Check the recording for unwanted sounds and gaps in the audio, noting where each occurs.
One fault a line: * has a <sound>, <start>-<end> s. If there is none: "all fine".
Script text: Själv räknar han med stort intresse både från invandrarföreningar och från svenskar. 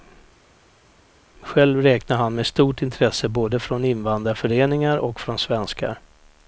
all fine